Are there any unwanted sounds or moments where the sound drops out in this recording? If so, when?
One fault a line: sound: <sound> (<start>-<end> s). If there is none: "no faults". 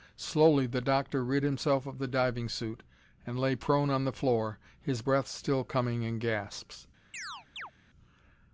sound: chirp (7.1-7.7 s)